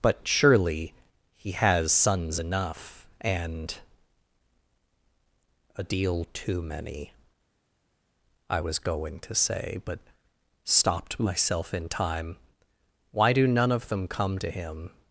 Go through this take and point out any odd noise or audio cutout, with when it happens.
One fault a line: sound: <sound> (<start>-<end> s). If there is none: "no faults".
no faults